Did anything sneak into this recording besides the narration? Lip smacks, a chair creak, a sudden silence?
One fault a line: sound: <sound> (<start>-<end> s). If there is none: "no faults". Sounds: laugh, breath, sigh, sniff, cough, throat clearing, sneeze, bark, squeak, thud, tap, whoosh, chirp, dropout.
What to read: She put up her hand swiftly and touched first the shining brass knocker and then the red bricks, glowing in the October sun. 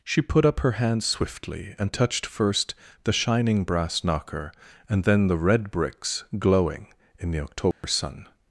sound: dropout (7.7-7.8 s)